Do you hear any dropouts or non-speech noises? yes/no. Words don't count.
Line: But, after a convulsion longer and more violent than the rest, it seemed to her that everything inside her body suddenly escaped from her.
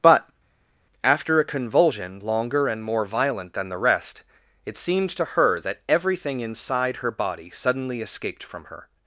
no